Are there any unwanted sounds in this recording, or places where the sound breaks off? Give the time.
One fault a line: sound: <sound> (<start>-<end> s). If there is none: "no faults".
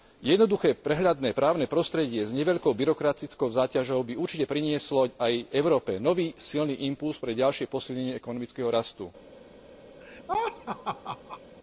sound: laugh (10.0-11.4 s)